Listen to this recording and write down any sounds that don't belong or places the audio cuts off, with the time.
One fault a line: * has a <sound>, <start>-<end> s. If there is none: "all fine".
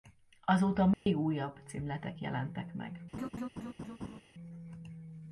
* has a dropout, 0.9-1.1 s
* has a laugh, 3.1-4.2 s